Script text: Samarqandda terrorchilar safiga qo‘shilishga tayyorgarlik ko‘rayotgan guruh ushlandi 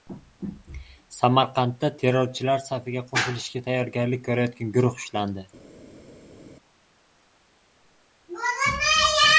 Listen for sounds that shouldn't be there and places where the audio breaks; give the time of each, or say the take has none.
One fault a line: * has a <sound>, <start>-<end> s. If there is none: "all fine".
all fine